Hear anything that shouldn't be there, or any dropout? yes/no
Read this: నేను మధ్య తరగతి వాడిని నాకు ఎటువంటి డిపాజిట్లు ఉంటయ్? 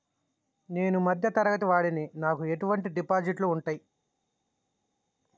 no